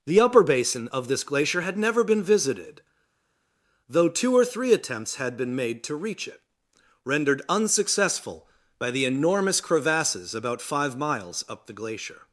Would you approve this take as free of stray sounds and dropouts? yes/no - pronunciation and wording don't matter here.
yes